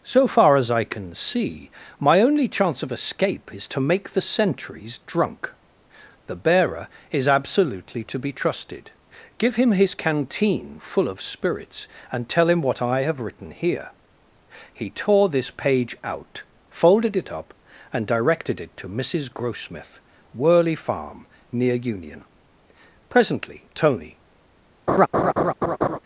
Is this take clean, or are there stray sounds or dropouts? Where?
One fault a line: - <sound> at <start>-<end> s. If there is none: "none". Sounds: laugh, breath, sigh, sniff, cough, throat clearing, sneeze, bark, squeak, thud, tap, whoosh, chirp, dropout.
- laugh at 24.9-26.0 s